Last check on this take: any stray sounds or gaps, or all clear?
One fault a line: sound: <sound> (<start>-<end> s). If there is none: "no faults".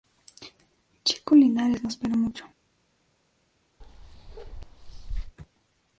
sound: bark (3.8-5.4 s)